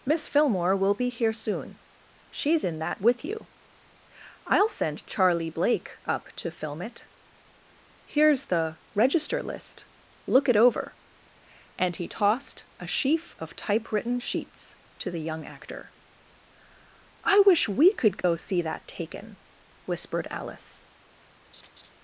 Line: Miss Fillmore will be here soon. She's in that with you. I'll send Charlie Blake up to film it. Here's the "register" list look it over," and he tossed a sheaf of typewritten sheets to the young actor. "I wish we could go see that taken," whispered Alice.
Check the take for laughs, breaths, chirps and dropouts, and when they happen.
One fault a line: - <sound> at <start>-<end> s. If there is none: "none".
- dropout at 18.2-18.2 s
- laugh at 21.5-21.9 s